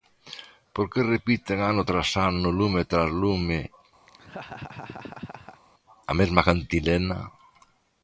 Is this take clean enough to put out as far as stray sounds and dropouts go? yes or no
no